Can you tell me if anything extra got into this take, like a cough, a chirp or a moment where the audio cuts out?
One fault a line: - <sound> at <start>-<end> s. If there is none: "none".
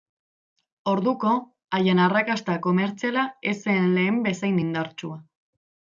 none